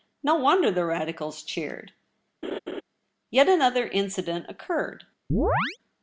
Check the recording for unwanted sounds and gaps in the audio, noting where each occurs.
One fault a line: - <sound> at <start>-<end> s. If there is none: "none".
- laugh at 2.4-2.8 s
- chirp at 5.3-5.8 s